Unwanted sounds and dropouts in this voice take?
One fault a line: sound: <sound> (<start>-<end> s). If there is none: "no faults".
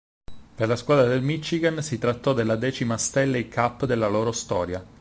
no faults